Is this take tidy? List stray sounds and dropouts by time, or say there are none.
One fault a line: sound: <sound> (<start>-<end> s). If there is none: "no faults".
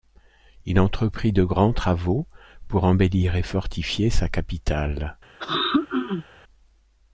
sound: throat clearing (5.4-6.2 s)